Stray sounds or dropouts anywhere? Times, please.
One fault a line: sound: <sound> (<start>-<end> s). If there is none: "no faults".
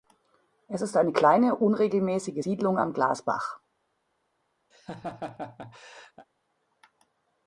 sound: laugh (4.7-6.3 s)